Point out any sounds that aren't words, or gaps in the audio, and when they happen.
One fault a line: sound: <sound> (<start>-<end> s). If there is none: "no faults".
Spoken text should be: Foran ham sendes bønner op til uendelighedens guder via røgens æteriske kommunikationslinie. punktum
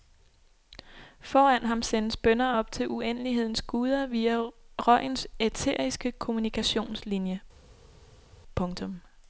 no faults